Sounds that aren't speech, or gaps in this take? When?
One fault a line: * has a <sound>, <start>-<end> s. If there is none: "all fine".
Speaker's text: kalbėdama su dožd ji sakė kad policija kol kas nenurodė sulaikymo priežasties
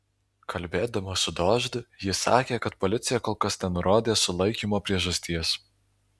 all fine